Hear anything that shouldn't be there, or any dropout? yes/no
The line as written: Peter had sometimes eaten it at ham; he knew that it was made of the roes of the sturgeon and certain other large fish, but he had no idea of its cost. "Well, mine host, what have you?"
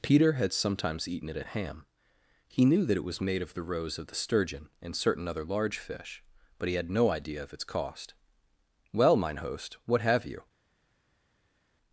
no